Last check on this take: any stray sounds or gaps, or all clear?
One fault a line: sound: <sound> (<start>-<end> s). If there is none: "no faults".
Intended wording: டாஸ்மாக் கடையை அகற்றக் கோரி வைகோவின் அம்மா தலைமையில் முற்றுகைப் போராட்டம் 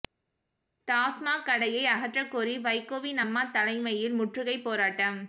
no faults